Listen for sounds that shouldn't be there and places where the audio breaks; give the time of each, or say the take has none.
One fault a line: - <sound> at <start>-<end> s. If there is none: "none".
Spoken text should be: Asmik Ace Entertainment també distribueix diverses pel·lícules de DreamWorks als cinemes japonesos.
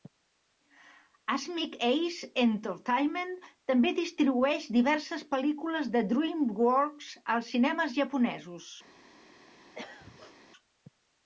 - throat clearing at 9.7-10.4 s